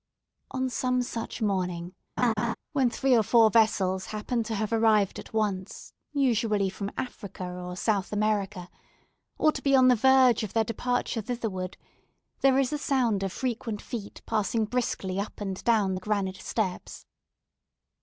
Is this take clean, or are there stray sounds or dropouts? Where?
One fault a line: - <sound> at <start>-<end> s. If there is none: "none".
- laugh at 2.2-2.5 s